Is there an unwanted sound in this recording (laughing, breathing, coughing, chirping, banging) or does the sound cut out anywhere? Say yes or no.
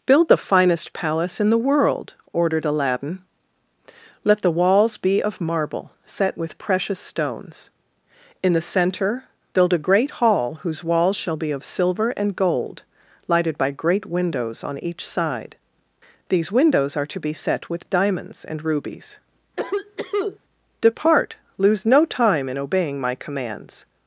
yes